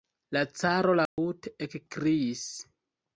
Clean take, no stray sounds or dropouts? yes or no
no